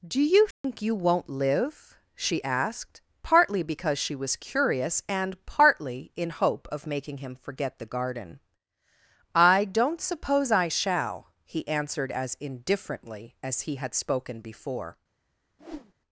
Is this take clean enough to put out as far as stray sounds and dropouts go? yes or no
no